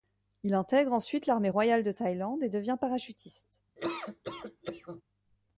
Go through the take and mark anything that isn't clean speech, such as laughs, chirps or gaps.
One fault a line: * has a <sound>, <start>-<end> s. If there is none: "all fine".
* has a laugh, 3.8-5.0 s